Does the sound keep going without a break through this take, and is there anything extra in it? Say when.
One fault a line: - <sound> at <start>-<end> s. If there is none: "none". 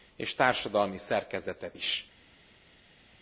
none